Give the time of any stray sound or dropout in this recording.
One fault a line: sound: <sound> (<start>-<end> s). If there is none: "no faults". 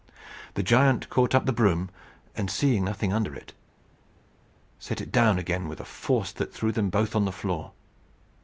no faults